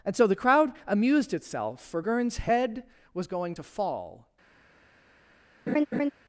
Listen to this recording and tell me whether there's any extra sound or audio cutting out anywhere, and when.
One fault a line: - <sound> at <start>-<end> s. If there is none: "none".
- laugh at 5.7-6.1 s